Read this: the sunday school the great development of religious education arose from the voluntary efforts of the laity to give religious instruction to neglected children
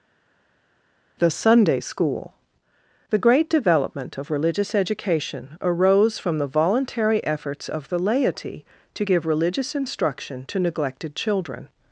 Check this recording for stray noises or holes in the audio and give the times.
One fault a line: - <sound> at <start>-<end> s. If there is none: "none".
none